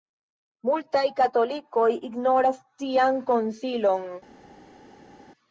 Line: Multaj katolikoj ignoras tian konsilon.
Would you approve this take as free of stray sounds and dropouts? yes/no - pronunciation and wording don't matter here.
yes